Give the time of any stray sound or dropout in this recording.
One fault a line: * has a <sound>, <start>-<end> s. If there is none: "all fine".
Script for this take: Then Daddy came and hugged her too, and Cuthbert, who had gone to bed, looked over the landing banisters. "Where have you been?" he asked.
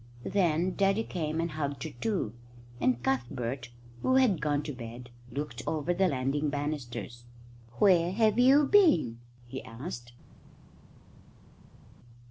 all fine